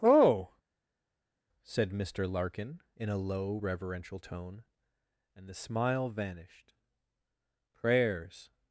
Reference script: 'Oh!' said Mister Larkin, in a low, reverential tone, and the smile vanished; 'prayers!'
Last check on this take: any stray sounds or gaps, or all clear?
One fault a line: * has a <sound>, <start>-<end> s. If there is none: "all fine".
all fine